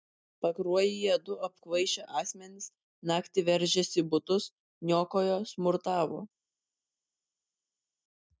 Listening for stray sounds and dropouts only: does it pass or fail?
pass